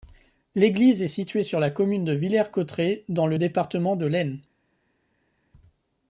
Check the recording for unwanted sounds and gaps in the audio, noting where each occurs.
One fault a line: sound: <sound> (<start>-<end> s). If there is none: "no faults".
no faults